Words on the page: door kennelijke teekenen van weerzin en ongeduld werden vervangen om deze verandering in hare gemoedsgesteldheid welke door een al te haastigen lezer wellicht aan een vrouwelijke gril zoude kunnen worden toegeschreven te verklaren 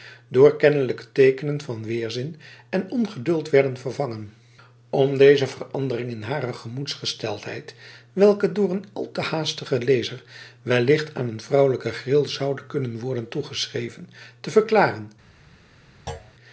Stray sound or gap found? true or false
true